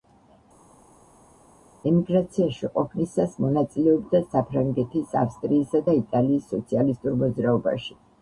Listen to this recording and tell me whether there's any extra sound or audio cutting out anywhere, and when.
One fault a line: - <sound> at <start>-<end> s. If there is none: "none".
none